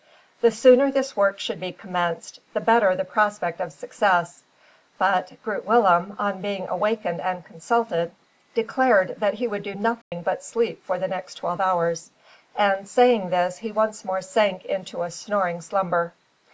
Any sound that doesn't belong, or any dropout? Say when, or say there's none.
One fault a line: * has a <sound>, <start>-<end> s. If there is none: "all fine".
* has a dropout, 10.0-10.1 s